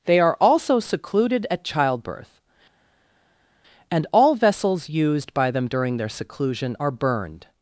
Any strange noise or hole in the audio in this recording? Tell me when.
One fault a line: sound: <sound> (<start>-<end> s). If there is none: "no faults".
no faults